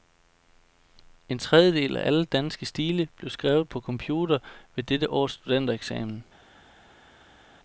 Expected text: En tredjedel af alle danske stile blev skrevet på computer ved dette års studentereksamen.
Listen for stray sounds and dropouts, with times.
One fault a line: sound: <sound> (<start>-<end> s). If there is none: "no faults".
no faults